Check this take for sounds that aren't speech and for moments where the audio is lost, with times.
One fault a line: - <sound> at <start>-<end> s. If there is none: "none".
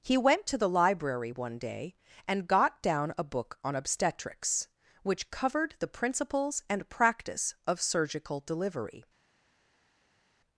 none